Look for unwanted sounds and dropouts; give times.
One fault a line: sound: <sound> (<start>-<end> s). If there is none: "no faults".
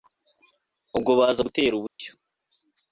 sound: dropout (1.9-2.0 s)